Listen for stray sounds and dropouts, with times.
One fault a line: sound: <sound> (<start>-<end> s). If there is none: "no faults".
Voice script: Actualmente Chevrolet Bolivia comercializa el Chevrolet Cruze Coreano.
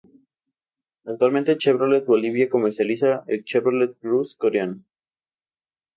no faults